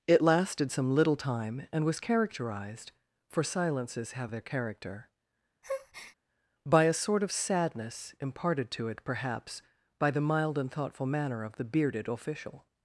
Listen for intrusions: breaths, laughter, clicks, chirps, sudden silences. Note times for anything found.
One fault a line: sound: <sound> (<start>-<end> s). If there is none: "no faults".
sound: breath (5.6-6.2 s)